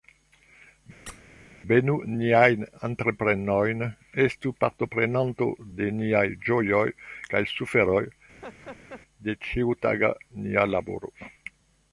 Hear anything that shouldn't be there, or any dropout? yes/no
yes